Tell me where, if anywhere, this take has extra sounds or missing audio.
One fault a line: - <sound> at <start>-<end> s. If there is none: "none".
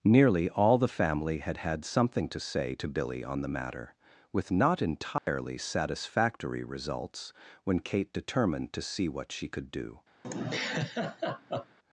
- dropout at 5.2-5.3 s
- laugh at 10.2-11.8 s